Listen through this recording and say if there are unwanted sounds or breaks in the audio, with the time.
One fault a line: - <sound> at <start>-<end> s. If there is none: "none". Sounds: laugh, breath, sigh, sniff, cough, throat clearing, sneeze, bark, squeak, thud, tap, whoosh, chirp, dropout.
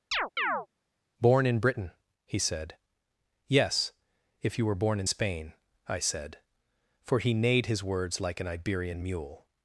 - chirp at 0.1-0.7 s